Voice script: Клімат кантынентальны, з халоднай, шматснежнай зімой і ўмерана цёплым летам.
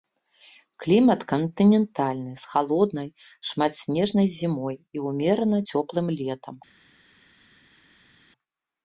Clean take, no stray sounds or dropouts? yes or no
yes